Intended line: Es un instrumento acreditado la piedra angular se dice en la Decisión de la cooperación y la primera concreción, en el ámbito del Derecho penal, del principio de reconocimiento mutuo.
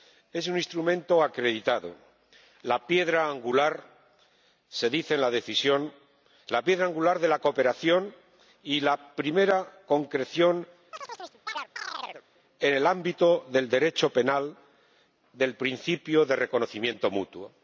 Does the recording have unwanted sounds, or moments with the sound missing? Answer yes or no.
yes